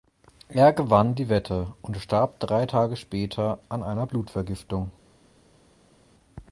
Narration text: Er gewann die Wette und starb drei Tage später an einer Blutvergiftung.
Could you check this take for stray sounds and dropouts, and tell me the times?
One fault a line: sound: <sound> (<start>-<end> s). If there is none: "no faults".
no faults